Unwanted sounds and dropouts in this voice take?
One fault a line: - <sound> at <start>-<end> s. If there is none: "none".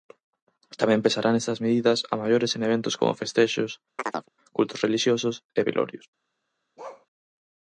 - chirp at 4.0-4.3 s
- bark at 6.8-7.1 s